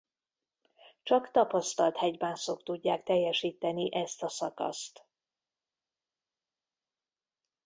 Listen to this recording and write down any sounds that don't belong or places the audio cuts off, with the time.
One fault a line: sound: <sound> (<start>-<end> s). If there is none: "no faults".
no faults